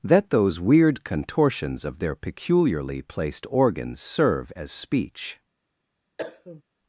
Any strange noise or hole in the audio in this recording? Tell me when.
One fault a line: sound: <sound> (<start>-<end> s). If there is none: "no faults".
sound: cough (6.2-6.6 s)